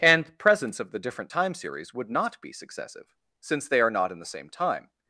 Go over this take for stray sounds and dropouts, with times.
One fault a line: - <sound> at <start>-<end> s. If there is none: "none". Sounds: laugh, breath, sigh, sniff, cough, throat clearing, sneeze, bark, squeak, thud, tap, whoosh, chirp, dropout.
none